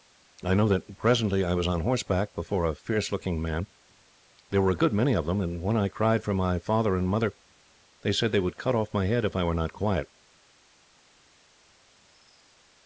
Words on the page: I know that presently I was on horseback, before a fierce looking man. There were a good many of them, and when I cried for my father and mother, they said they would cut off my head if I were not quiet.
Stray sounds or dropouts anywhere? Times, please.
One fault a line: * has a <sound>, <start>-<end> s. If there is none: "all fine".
all fine